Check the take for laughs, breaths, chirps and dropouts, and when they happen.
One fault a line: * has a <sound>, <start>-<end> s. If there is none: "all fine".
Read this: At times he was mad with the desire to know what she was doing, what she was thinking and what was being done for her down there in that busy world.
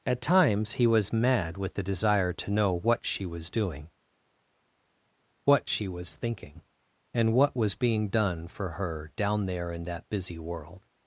all fine